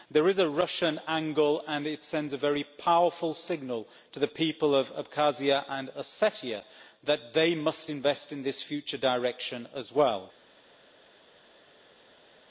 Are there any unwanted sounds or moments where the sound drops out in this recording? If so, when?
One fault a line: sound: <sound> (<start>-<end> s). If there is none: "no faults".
no faults